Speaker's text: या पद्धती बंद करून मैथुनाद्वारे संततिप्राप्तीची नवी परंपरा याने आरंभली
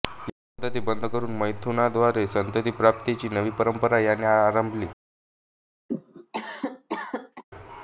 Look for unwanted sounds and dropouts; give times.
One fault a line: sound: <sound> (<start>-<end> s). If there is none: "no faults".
sound: cough (5.9-7.4 s)